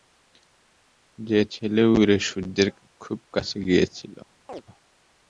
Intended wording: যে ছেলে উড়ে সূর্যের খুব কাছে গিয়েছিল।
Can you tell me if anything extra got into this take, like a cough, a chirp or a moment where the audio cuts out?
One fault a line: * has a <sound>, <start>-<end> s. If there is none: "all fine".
* has a chirp, 4.5-4.6 s